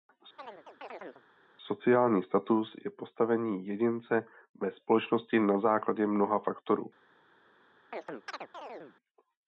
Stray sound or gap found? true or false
true